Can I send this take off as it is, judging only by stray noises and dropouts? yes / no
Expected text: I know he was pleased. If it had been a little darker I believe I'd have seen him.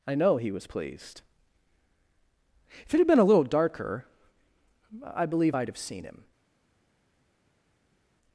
yes